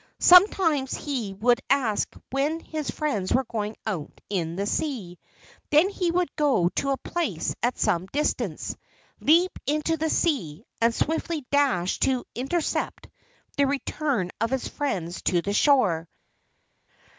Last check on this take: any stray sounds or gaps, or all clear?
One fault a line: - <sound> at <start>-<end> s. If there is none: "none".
none